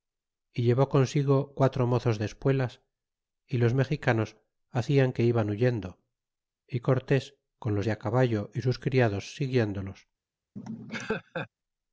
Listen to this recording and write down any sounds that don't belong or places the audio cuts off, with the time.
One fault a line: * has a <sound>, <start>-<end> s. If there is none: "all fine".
* has a laugh, 10.6-11.5 s